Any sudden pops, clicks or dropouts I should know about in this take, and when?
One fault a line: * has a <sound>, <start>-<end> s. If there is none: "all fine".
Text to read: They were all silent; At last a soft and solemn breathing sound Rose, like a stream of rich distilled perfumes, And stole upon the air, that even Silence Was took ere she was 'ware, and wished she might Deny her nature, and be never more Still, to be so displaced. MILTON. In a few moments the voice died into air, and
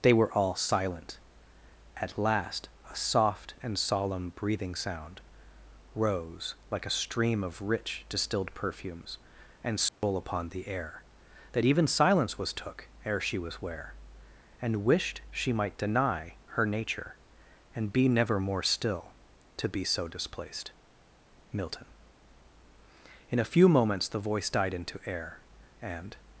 * has a dropout, 9.9-10.0 s